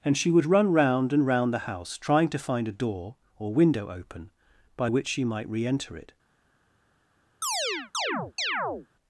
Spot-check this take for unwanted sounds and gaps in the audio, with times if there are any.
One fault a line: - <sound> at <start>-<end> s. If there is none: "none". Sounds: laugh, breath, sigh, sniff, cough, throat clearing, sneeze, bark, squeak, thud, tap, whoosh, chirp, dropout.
- chirp at 7.4-8.9 s